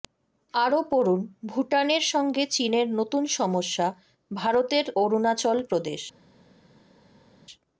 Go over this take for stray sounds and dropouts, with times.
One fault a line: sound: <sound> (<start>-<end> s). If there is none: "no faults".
no faults